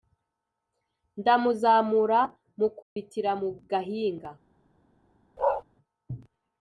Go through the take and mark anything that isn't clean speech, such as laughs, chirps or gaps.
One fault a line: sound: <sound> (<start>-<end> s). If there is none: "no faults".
sound: dropout (2.8-3.0 s)
sound: bark (5.4-5.6 s)